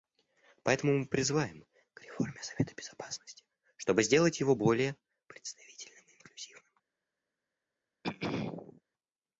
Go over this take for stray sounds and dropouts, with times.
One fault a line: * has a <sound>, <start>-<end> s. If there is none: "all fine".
* has a throat clearing, 8.0-8.8 s